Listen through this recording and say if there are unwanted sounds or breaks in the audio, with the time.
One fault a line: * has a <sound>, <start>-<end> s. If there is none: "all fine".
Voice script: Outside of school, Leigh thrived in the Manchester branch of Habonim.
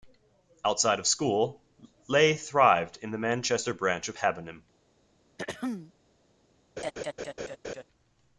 * has a throat clearing, 5.4-5.9 s
* has a laugh, 6.8-7.8 s